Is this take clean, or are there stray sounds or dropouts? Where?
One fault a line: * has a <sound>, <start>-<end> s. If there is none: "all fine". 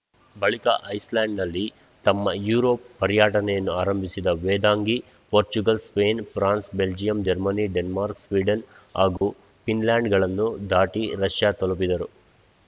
* has a dropout, 9.2-9.2 s